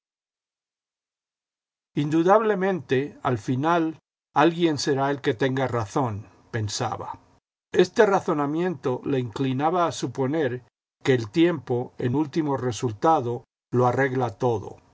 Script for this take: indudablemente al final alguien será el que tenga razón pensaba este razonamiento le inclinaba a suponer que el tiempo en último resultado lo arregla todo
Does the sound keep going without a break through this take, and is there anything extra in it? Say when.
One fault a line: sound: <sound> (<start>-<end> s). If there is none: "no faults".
no faults